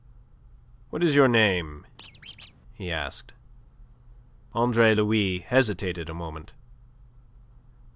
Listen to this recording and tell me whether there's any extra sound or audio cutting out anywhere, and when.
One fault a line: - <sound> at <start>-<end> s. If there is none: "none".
- squeak at 2.0-2.5 s